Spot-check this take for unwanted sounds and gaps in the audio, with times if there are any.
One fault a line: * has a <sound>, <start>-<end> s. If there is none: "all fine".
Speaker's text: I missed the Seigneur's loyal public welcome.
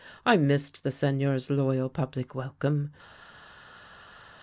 all fine